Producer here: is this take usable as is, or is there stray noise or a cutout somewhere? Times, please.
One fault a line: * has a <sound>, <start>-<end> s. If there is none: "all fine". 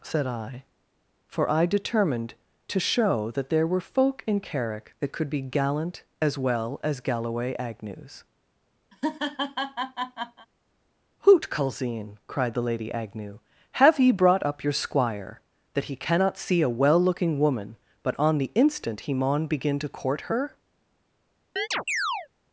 * has a laugh, 8.9-10.5 s
* has a chirp, 21.6-22.3 s